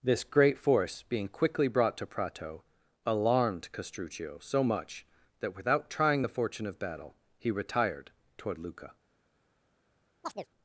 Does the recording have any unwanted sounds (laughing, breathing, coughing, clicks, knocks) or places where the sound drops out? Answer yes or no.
yes